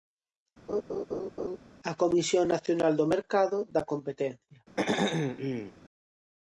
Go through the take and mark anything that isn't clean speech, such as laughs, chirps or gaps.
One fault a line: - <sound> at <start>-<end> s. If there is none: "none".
- laugh at 0.7-1.6 s
- throat clearing at 4.8-5.7 s